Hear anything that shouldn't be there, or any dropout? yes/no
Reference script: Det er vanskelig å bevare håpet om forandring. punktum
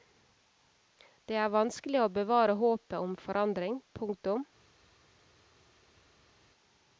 no